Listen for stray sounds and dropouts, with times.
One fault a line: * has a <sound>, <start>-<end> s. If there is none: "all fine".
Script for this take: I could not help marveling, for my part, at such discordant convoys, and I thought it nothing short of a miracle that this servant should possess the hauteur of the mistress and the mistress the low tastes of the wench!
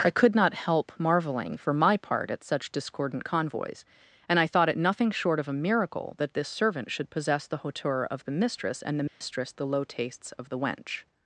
* has a dropout, 9.1-9.2 s